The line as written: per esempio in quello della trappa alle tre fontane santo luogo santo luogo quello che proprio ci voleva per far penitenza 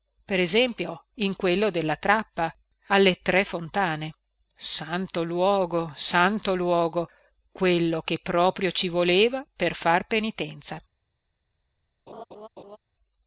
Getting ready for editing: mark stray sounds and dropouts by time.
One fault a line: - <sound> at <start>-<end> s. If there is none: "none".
- laugh at 12.1-12.8 s